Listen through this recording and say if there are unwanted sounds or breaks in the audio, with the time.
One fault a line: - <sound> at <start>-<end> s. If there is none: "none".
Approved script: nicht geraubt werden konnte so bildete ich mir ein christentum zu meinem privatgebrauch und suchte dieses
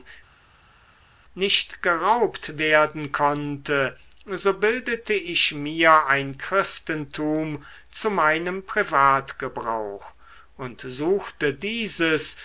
none